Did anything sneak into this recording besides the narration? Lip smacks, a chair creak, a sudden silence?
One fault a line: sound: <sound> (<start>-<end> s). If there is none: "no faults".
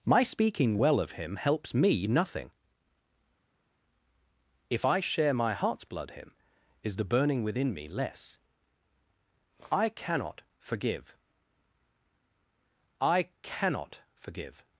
no faults